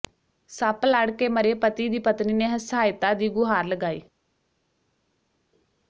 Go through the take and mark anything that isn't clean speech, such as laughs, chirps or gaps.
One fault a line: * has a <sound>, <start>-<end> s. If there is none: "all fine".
all fine